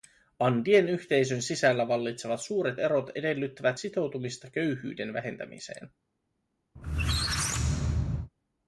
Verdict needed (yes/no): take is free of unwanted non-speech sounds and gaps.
no